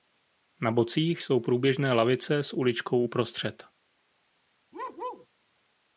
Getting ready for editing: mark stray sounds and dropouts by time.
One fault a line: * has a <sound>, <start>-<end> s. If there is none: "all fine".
* has a bark, 4.7-5.3 s